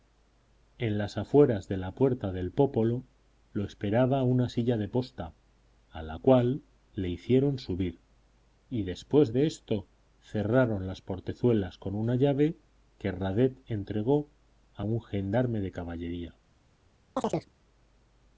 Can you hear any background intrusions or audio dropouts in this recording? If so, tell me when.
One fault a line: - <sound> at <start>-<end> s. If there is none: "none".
- chirp at 17.2-17.5 s